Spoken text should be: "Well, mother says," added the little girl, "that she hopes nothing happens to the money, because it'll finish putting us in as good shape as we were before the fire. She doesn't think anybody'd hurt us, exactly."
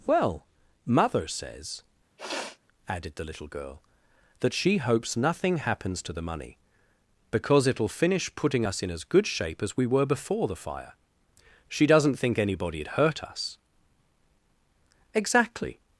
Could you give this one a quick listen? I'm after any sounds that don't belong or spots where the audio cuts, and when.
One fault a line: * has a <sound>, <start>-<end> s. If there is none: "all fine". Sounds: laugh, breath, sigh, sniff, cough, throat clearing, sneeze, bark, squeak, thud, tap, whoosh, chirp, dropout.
* has a sniff, 2.2-2.6 s